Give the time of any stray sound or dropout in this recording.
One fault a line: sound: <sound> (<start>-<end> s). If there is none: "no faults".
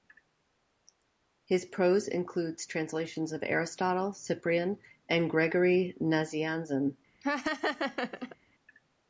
sound: laugh (7.2-8.4 s)